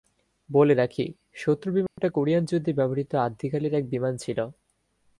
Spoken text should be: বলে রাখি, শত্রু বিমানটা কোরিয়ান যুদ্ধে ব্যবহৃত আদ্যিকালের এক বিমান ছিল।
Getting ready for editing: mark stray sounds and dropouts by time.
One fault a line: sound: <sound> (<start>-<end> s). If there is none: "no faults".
sound: dropout (1.9-2.0 s)